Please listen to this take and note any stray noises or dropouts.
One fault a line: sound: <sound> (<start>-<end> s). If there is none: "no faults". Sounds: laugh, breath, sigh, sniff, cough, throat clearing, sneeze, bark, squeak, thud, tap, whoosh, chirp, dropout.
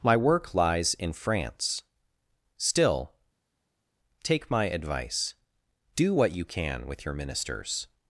no faults